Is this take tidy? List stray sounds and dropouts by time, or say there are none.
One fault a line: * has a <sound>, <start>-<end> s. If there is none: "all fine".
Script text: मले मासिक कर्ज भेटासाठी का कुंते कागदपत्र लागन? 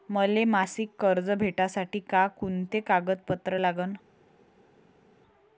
all fine